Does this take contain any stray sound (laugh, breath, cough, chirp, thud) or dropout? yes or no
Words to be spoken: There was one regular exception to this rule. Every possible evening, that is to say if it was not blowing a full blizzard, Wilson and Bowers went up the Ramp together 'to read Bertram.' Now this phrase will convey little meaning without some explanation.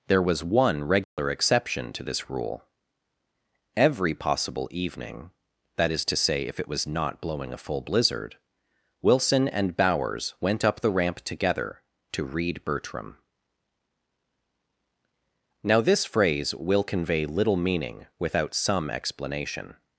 yes